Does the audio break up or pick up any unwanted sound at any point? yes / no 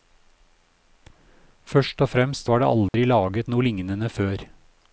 yes